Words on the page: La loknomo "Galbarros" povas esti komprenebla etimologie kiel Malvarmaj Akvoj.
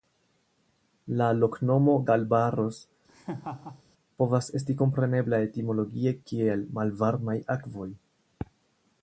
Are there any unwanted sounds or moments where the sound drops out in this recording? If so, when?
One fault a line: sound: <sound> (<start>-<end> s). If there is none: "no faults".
sound: laugh (3.1-3.8 s)